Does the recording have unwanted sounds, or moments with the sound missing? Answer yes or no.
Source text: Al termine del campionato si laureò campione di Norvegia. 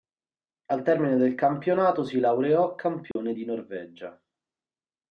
yes